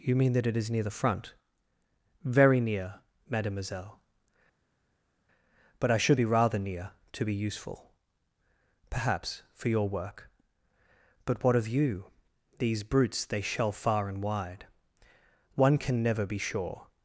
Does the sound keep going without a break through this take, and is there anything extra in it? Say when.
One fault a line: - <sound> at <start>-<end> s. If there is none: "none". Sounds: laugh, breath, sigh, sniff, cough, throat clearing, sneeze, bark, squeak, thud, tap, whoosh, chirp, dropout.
none